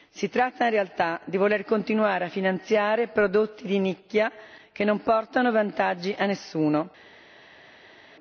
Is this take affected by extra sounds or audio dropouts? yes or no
no